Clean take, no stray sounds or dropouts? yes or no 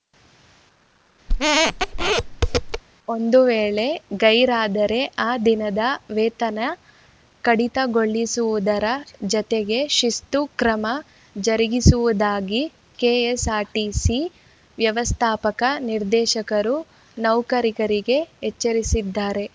no